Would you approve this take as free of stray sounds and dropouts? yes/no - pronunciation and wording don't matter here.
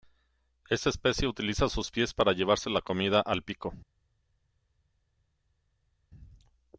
yes